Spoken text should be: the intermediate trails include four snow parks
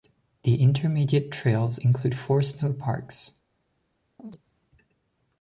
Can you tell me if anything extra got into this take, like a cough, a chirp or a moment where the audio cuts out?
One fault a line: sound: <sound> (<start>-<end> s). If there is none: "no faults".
sound: chirp (4.2-4.4 s)